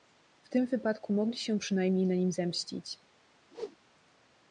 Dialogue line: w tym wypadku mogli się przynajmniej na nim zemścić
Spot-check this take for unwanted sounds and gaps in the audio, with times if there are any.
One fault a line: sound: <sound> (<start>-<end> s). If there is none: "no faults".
sound: whoosh (3.5-3.8 s)